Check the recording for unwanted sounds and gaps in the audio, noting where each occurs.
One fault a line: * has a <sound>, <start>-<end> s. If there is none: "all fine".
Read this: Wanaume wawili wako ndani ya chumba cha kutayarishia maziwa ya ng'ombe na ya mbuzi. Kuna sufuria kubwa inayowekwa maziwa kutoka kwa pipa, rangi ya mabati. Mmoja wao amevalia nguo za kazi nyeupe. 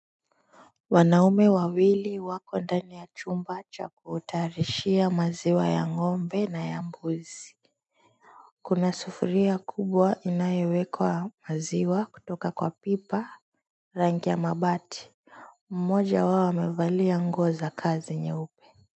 all fine